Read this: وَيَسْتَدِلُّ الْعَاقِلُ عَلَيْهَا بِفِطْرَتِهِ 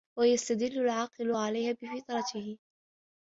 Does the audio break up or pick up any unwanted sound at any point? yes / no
no